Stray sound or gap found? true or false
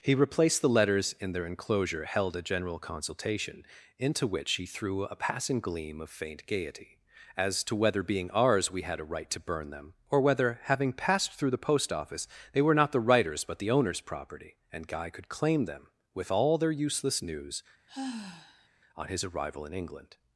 true